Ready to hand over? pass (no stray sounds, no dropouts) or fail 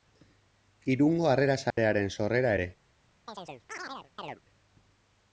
fail